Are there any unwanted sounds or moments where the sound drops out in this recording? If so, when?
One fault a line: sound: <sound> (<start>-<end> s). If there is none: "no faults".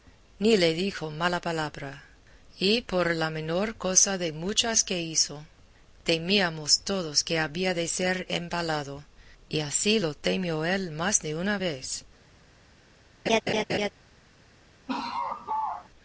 sound: laugh (13.3-13.9 s)
sound: laugh (14.9-15.9 s)